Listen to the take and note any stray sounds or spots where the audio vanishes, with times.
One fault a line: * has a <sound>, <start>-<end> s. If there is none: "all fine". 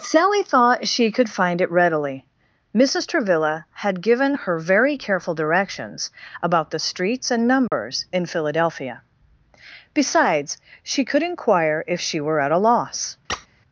* has a dropout, 7.7-7.7 s
* has a squeak, 13.3-13.5 s